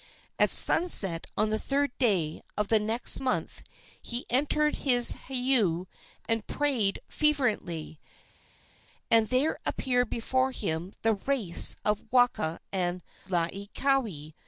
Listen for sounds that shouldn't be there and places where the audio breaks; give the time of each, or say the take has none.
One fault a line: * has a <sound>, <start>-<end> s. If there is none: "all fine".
all fine